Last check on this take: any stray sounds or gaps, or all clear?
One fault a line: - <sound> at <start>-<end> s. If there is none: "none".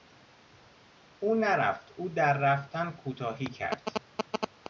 none